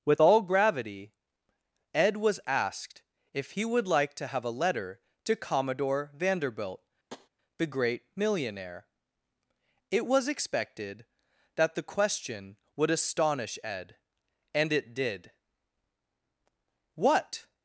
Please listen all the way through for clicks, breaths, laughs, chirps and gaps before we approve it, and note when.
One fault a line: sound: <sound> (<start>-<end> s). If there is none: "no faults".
sound: tap (7.1-7.3 s)